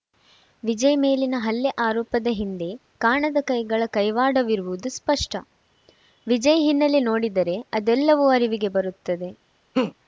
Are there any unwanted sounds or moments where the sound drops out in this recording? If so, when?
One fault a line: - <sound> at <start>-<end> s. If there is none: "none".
- laugh at 9.7-9.9 s